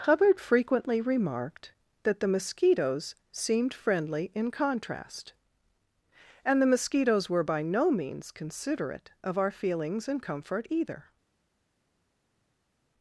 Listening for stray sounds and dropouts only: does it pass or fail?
pass